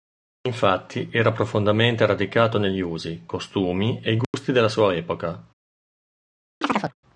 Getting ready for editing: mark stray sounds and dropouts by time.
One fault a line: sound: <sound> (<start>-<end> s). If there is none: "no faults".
sound: dropout (4.2-4.3 s)
sound: chirp (6.6-6.9 s)